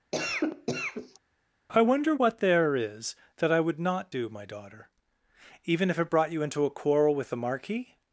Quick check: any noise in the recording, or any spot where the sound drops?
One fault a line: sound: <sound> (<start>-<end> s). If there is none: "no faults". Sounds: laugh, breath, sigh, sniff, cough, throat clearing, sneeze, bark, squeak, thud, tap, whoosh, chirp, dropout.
sound: cough (0.1-1.2 s)